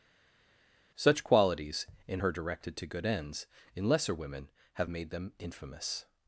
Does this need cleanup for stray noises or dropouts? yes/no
no